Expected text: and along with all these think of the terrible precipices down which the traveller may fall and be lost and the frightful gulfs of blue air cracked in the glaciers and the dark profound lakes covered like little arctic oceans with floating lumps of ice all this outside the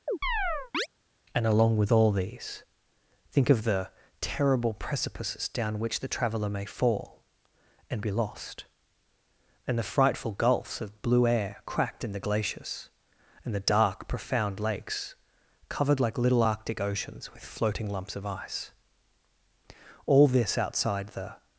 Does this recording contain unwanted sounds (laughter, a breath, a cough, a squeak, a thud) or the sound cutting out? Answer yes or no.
yes